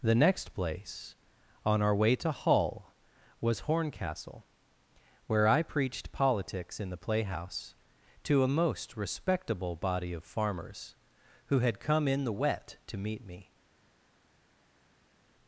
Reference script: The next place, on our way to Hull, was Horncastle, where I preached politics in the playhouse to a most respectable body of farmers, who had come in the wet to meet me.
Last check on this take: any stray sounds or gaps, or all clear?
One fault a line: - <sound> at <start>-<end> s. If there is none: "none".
none